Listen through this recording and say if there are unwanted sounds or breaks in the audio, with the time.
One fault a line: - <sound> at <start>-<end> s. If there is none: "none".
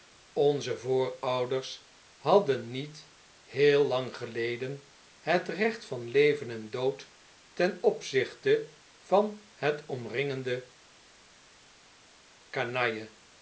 none